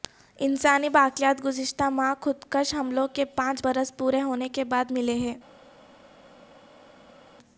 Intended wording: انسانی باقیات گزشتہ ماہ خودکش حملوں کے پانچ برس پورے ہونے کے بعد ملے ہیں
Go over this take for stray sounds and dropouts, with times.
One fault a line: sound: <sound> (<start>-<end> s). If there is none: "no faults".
no faults